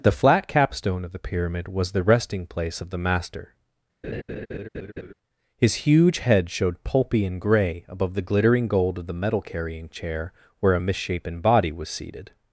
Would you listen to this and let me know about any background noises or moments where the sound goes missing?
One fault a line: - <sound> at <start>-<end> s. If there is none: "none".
- laugh at 4.0-5.1 s